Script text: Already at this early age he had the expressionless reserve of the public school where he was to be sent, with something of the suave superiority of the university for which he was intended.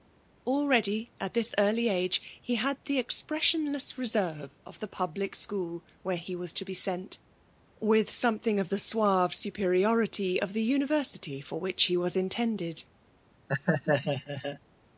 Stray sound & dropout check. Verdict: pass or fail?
fail